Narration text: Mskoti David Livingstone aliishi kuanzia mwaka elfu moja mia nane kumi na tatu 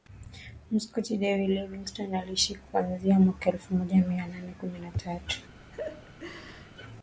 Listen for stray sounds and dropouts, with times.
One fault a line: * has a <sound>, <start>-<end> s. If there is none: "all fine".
* has a laugh, 5.7-6.7 s